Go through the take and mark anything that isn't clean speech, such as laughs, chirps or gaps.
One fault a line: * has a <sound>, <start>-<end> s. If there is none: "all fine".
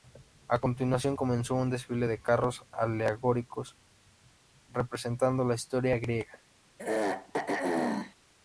* has a throat clearing, 6.8-8.2 s